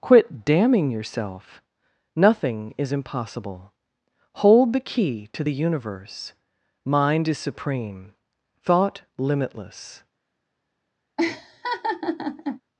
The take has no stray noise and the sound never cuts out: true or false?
false